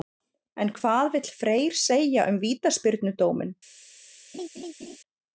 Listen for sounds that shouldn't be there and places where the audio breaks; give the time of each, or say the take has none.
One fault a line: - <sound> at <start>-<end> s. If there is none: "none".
- laugh at 4.3-5.0 s